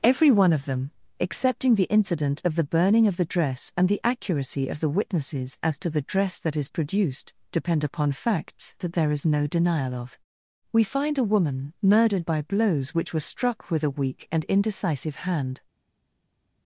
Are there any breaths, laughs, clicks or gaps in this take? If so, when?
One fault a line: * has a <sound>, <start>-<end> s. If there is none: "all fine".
all fine